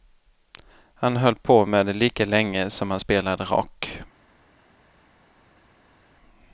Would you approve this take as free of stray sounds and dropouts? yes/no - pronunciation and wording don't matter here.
yes